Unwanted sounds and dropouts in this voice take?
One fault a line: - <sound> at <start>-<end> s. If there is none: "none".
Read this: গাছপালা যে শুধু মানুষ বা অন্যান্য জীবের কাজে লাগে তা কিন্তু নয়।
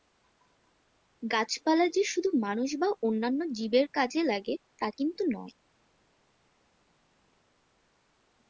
none